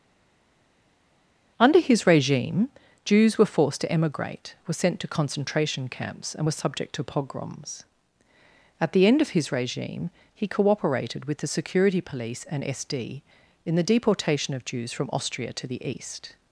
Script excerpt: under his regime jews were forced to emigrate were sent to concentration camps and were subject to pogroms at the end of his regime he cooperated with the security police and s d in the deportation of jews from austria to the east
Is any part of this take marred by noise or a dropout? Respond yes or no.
no